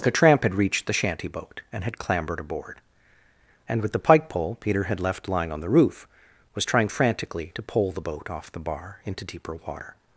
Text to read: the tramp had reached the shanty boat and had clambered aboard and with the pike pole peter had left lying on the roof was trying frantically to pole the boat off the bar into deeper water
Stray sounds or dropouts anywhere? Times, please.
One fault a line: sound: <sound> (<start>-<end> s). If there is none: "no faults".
no faults